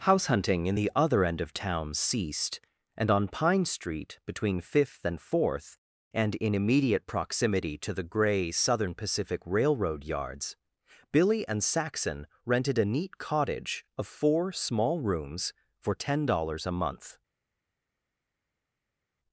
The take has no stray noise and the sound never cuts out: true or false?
true